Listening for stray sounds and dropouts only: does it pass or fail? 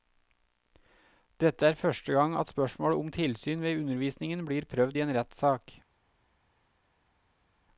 pass